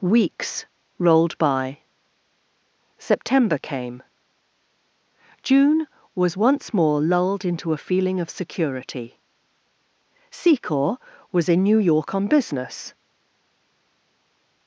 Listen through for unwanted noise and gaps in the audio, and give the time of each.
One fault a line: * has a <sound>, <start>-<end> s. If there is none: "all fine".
all fine